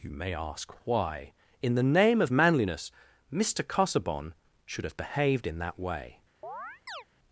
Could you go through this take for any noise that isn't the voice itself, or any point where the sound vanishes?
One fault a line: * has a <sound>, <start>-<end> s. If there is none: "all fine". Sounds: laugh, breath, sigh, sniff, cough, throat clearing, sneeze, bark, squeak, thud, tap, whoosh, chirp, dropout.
* has a chirp, 6.4-7.0 s